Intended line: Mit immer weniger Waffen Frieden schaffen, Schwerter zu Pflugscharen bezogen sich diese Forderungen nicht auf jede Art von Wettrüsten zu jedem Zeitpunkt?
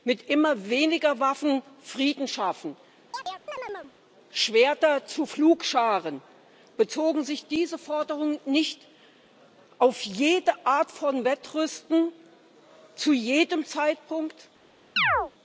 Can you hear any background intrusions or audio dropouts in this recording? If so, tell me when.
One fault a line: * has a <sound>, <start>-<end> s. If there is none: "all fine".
* has a chirp, 3.1-3.9 s
* has a chirp, 15.0-15.3 s